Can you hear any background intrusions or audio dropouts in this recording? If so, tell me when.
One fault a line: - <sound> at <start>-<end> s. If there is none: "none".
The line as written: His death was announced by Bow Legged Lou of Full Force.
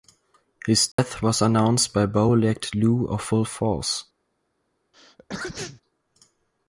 - dropout at 0.9-1.0 s
- sneeze at 4.9-5.8 s